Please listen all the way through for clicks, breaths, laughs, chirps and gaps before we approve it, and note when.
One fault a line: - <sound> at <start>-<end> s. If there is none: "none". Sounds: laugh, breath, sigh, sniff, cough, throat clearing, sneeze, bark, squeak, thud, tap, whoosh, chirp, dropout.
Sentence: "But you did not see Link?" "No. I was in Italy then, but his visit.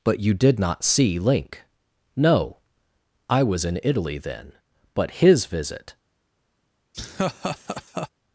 - laugh at 6.9-8.1 s